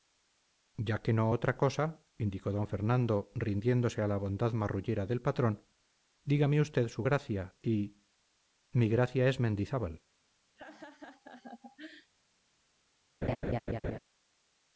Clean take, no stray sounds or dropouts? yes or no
no